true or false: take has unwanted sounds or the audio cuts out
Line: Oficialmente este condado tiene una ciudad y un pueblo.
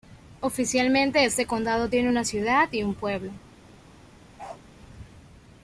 true